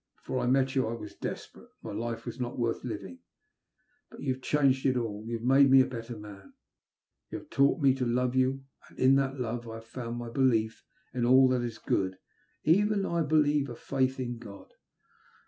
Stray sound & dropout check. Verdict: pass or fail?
pass